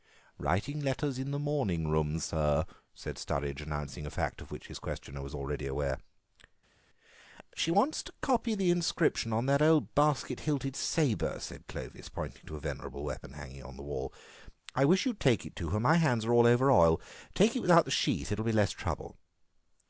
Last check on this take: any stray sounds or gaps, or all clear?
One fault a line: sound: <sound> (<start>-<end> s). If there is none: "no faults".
no faults